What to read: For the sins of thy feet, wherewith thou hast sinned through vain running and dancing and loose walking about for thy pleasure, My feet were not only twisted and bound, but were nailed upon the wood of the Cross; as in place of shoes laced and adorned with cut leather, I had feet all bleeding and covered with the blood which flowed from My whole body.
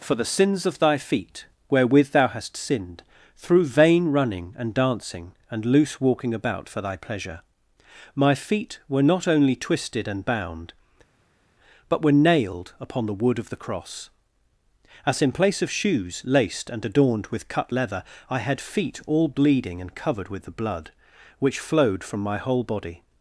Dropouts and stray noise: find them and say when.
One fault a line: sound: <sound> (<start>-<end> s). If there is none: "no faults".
no faults